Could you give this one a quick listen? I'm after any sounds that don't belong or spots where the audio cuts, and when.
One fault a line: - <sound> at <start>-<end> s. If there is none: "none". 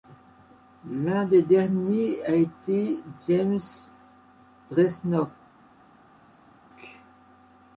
none